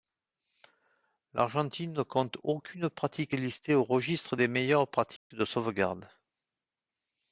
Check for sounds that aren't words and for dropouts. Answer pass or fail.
fail